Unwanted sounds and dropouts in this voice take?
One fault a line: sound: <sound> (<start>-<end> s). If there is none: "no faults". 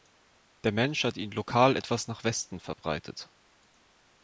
no faults